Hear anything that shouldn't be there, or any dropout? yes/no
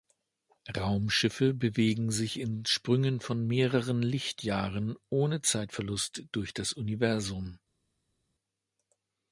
no